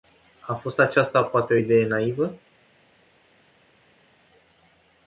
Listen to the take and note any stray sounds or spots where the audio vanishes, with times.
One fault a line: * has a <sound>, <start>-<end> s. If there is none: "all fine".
all fine